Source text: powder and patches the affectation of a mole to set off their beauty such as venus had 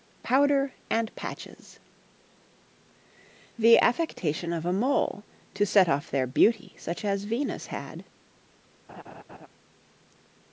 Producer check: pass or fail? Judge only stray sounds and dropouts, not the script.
fail